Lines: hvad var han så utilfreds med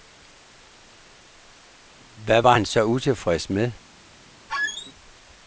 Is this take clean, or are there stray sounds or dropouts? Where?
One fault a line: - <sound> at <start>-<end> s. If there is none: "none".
- squeak at 4.5-4.9 s